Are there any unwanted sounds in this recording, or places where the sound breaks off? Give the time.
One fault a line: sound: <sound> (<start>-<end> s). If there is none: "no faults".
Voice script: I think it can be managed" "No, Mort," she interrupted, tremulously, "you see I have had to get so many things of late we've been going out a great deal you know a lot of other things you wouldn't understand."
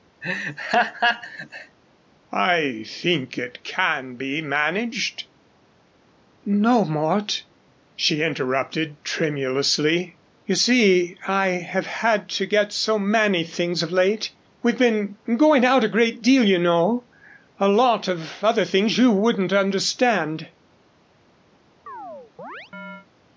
sound: laugh (0.2-1.8 s)
sound: chirp (21.9-23.1 s)